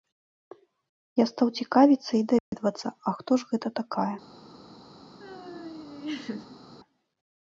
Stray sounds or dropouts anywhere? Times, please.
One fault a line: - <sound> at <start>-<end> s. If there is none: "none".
- dropout at 2.4-2.5 s
- laugh at 5.2-6.7 s